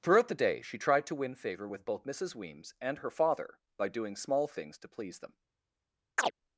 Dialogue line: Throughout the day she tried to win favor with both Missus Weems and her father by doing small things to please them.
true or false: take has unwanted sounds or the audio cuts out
true